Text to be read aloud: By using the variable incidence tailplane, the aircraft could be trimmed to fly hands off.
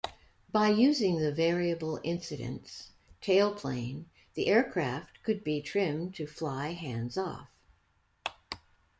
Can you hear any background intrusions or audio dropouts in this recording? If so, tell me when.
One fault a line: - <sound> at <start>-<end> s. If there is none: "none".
none